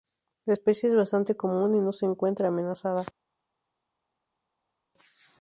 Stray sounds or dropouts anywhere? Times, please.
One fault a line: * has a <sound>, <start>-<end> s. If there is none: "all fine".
all fine